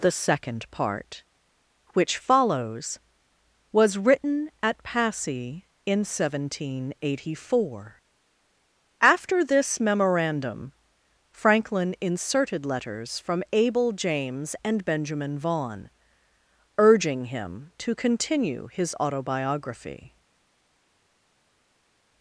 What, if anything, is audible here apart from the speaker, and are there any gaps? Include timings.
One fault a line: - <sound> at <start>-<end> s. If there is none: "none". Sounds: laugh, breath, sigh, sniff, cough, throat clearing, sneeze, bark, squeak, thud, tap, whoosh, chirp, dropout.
none